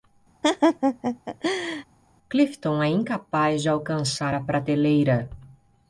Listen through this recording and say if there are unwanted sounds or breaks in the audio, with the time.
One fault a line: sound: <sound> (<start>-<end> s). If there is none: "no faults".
sound: laugh (0.4-1.8 s)